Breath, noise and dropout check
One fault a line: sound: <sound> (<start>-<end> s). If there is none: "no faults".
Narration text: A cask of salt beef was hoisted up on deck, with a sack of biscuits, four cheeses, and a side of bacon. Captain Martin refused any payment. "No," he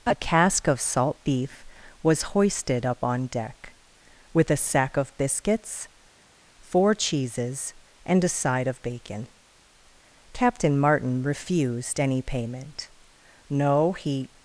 no faults